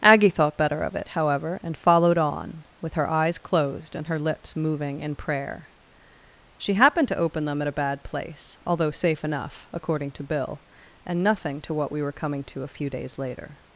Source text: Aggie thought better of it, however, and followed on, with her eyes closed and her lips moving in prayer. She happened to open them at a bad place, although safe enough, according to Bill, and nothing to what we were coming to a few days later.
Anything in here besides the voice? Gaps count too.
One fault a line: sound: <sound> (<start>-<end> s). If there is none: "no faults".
no faults